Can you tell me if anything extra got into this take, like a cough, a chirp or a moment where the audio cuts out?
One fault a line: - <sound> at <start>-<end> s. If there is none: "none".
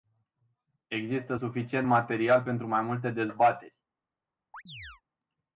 - chirp at 4.5-5.0 s